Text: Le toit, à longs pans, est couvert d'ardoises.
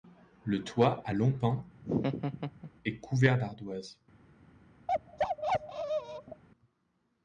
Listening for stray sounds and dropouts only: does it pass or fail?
fail